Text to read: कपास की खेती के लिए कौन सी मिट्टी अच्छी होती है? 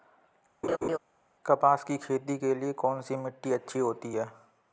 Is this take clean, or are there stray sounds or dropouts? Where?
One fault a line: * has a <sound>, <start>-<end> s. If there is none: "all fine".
* has a laugh, 0.6-1.0 s